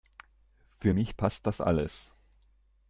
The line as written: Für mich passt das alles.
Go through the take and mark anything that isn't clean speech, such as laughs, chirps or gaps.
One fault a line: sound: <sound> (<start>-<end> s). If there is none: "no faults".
no faults